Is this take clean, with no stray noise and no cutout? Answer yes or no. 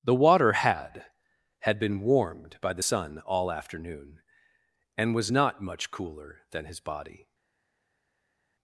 yes